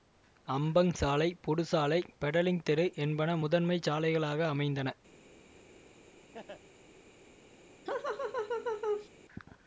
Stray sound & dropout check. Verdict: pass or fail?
fail